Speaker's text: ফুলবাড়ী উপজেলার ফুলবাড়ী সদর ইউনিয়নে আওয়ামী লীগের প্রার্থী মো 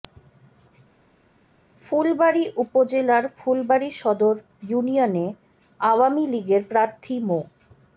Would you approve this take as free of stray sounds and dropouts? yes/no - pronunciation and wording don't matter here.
yes